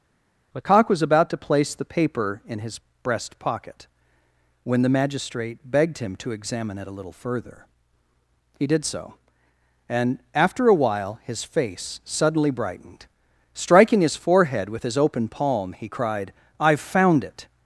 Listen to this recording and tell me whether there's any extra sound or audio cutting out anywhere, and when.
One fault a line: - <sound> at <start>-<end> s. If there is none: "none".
none